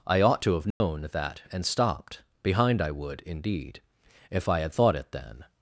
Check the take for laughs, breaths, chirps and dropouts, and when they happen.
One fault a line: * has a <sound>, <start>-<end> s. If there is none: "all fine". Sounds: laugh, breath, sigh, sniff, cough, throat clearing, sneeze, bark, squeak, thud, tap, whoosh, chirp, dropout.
* has a dropout, 0.7-0.8 s